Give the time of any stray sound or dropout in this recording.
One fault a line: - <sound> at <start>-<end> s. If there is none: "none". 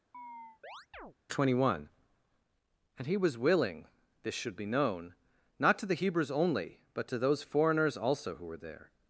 - chirp at 0.1-1.1 s